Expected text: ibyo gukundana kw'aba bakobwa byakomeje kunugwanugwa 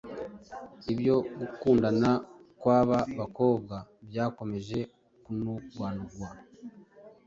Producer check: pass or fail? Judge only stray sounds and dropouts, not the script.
pass